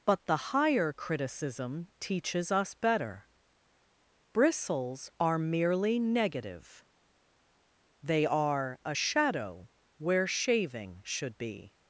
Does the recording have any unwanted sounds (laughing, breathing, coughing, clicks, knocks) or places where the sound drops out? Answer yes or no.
no